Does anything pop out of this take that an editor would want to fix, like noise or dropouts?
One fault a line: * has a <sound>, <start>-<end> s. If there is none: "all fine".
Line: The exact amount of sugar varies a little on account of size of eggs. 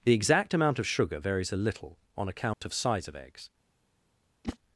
* has a dropout, 2.5-2.6 s
* has a whoosh, 4.4-4.6 s